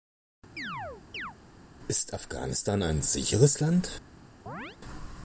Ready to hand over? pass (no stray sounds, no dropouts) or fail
fail